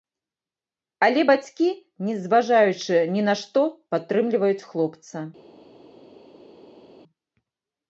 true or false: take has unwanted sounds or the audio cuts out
false